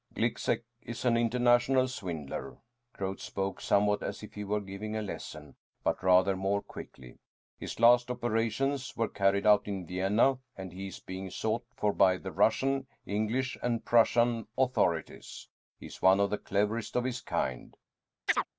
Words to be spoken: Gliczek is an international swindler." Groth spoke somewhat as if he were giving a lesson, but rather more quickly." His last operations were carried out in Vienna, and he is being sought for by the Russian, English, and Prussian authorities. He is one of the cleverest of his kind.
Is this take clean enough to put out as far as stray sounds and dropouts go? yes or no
no